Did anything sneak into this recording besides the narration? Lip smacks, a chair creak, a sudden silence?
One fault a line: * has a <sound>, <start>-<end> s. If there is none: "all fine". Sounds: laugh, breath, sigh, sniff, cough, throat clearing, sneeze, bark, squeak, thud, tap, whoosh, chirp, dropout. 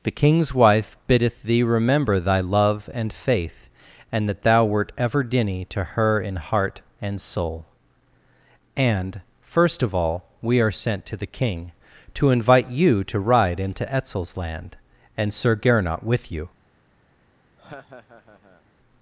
* has a laugh, 17.6-18.6 s